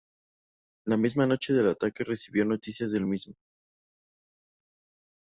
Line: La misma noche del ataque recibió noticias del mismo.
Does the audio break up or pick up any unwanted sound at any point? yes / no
no